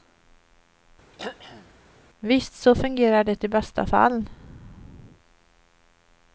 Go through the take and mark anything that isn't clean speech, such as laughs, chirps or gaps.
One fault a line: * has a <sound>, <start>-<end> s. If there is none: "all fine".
* has a throat clearing, 1.1-1.7 s